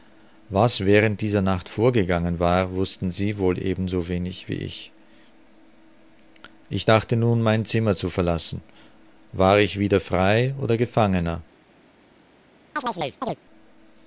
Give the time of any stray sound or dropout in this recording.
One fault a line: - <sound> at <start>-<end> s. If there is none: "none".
- chirp at 12.8-13.4 s